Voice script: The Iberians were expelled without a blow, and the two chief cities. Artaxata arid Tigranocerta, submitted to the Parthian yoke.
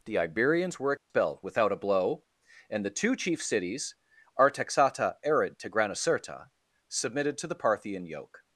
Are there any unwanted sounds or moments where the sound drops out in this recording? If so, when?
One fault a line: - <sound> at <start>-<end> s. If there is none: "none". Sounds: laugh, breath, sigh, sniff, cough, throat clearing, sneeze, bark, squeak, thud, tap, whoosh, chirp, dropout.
- dropout at 1.0-1.1 s